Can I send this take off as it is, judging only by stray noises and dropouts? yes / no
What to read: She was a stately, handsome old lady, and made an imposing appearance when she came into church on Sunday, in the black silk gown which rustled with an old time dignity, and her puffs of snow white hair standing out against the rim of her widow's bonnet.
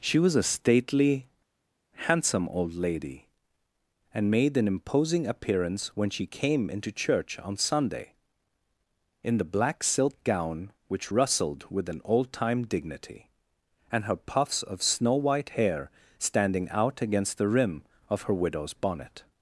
yes